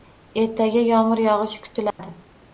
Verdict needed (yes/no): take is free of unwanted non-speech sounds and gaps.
no